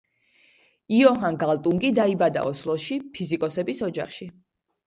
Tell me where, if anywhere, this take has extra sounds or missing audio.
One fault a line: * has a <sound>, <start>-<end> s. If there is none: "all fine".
all fine